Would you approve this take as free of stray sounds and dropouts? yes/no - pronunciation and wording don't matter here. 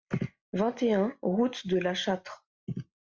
yes